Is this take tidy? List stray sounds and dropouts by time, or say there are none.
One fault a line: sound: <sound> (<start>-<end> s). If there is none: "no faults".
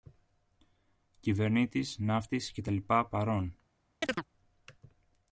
sound: chirp (4.0-4.3 s)